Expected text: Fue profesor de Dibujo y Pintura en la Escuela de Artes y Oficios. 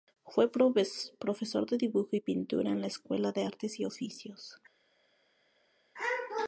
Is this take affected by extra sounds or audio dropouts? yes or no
no